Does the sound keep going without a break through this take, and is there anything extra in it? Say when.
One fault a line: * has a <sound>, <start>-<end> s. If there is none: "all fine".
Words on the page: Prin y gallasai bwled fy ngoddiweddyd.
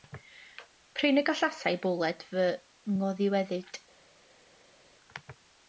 all fine